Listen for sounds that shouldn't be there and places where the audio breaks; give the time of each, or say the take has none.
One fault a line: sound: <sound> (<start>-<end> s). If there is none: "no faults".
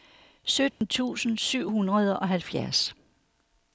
sound: dropout (0.7-0.8 s)